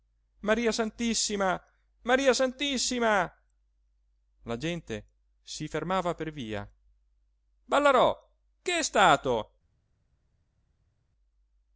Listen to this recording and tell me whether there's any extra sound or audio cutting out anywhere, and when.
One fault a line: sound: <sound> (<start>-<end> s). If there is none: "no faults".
no faults